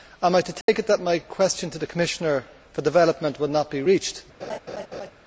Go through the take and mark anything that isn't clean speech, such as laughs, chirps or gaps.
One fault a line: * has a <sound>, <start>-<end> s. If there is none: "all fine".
* has a dropout, 0.6-0.7 s
* has a laugh, 4.4-5.1 s